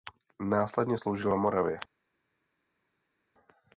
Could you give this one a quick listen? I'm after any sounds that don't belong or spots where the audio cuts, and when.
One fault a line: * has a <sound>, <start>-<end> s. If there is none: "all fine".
all fine